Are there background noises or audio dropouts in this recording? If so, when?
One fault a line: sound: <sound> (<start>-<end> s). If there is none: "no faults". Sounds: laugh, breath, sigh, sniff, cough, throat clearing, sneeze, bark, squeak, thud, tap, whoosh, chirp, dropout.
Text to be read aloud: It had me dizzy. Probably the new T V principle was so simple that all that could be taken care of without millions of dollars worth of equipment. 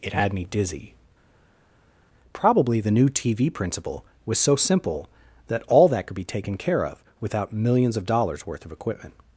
no faults